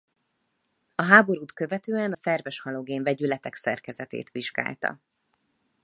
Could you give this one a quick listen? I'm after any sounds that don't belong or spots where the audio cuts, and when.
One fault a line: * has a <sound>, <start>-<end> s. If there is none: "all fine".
all fine